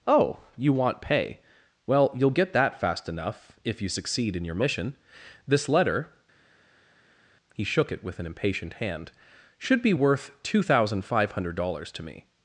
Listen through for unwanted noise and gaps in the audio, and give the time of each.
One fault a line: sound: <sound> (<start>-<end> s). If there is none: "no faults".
no faults